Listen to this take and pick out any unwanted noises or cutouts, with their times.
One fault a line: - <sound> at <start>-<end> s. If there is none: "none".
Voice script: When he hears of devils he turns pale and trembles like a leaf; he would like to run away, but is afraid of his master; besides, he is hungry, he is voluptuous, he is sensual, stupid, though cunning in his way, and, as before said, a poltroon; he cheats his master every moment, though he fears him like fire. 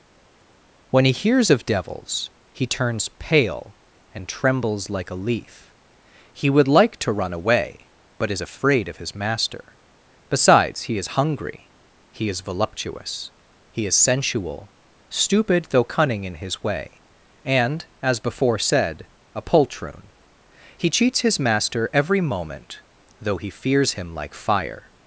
none